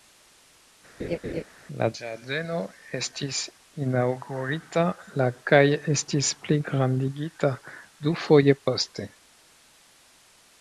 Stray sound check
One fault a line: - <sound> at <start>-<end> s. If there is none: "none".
- laugh at 1.0-1.4 s